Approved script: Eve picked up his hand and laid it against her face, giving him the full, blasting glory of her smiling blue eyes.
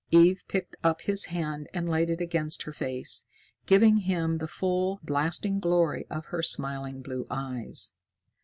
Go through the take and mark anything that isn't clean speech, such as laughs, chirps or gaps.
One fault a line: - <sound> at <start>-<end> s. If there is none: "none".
none